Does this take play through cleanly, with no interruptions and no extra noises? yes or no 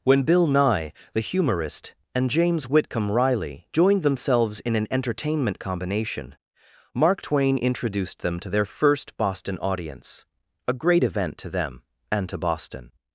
yes